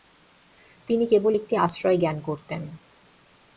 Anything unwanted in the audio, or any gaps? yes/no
no